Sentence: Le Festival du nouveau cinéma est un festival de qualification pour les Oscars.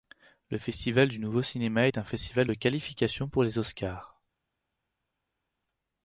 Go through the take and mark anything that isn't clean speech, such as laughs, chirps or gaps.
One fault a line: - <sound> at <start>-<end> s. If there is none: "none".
none